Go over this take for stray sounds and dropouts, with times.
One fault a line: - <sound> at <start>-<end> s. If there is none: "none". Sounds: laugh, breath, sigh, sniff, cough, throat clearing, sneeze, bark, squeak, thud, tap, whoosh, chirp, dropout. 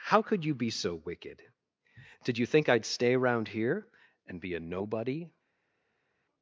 none